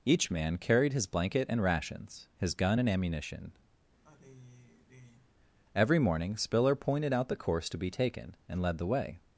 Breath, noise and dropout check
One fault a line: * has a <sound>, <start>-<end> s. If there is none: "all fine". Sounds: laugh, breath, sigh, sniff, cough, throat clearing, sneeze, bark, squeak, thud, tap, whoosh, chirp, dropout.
* has a sigh, 4.0-5.3 s